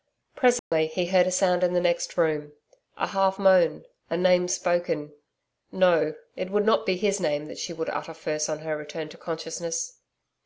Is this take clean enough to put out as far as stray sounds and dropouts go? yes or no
no